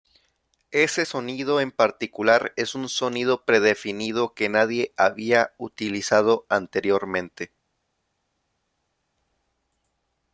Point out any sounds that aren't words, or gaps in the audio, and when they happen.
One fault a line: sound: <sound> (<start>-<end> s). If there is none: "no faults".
no faults